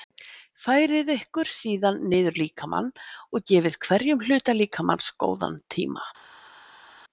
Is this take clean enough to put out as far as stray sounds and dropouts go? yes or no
yes